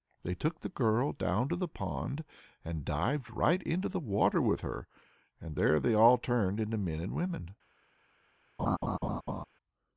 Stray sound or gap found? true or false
true